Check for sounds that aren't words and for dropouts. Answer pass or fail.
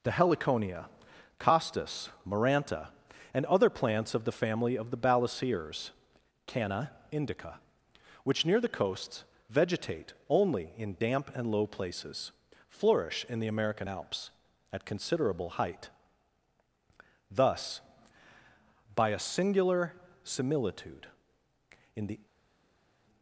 pass